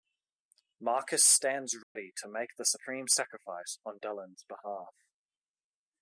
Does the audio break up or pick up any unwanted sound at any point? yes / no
yes